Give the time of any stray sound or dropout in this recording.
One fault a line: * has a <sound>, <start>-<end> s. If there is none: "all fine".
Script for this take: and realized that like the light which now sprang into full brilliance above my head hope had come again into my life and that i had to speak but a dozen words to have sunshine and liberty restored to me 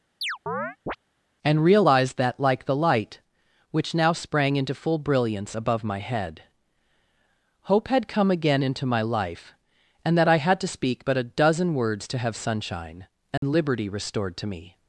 * has a chirp, 0.2-1.0 s
* has a dropout, 13.4-13.4 s